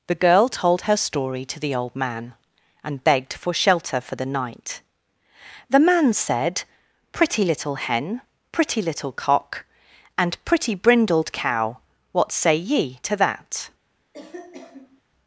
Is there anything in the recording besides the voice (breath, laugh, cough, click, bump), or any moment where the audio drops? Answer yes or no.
yes